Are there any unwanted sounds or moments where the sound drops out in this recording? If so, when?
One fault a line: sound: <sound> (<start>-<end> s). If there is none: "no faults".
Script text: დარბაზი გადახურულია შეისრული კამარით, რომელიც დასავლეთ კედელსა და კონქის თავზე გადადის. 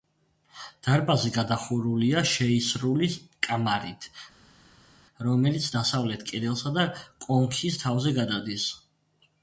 no faults